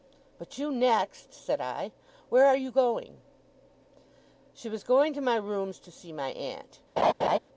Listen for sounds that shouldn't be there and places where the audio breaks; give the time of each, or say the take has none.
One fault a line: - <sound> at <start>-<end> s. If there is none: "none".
- laugh at 7.0-7.4 s